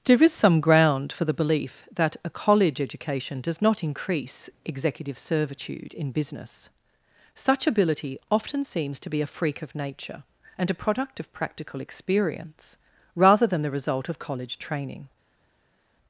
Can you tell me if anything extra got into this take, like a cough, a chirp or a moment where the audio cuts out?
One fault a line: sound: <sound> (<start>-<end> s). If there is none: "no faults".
no faults